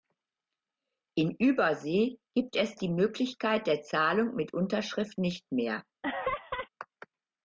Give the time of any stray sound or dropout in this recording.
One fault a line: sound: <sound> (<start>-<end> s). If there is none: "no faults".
sound: laugh (6.0-6.7 s)